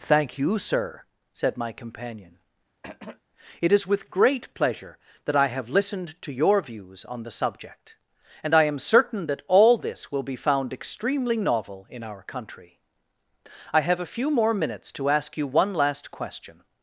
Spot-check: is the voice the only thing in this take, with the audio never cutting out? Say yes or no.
no